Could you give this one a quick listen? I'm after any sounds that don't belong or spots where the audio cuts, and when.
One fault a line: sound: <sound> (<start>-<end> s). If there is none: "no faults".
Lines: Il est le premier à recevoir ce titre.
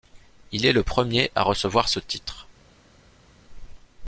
no faults